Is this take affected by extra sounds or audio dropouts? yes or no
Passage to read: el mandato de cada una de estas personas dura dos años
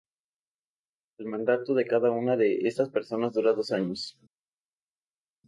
no